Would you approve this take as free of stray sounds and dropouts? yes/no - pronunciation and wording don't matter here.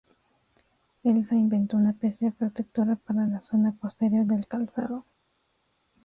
yes